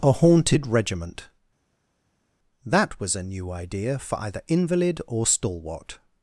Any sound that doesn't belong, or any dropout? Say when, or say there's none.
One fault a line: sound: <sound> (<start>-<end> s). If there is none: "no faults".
no faults